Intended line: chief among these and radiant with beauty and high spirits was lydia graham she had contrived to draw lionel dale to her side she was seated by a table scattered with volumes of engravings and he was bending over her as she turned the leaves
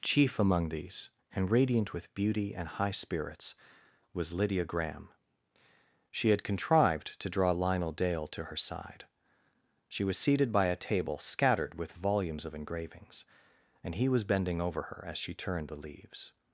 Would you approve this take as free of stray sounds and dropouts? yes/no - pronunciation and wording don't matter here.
yes